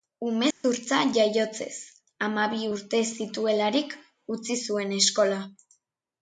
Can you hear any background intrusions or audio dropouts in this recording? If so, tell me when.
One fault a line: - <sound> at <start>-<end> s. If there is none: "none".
- dropout at 0.5-0.6 s